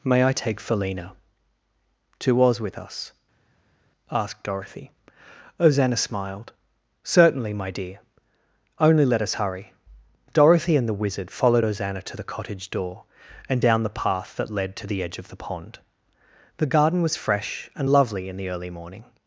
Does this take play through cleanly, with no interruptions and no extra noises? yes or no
yes